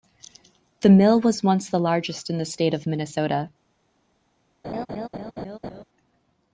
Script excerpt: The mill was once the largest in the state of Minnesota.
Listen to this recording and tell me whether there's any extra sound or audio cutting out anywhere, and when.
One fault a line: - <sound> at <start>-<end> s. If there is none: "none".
- laugh at 4.6-5.8 s